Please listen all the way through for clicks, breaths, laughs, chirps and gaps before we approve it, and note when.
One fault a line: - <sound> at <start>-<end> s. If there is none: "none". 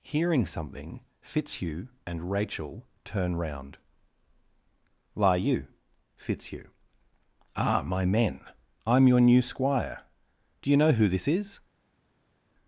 none